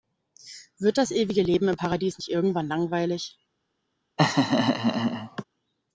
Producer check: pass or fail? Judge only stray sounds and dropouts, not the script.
fail